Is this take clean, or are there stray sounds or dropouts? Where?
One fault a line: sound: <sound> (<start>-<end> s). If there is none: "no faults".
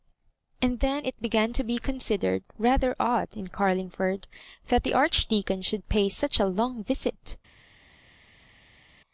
no faults